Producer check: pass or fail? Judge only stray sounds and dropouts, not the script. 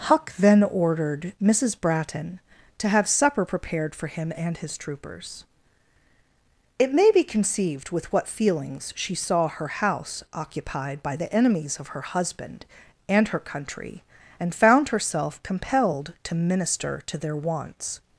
pass